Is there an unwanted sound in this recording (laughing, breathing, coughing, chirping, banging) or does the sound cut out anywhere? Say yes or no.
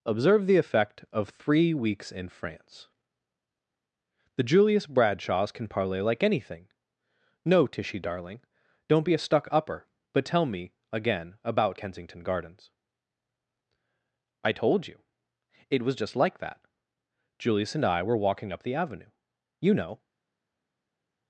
no